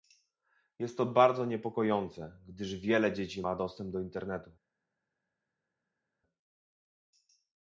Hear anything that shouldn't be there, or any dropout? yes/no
no